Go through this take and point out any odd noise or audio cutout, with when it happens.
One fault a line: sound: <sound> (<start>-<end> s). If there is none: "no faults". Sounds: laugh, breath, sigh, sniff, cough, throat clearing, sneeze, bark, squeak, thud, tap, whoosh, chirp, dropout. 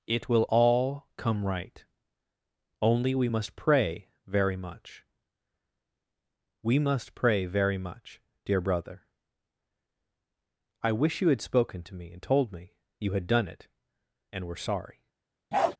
sound: bark (15.5-15.8 s)